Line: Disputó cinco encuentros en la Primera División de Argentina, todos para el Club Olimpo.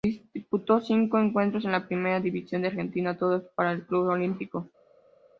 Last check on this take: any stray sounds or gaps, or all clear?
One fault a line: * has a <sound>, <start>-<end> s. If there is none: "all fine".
all fine